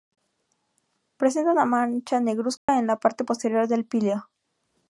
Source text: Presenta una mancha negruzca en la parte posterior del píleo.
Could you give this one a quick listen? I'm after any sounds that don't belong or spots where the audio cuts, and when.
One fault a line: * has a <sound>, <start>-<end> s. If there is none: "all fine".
* has a dropout, 2.6-2.7 s